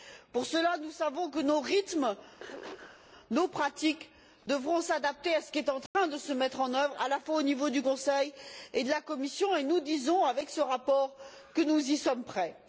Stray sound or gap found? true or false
true